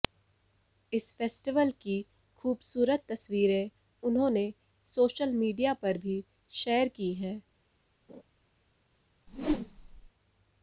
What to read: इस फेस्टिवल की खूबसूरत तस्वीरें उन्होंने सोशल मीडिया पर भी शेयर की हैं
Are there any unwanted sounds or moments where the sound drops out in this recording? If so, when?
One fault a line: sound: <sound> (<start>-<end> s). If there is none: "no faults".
sound: laugh (8.1-8.2 s)
sound: whoosh (9.3-10.1 s)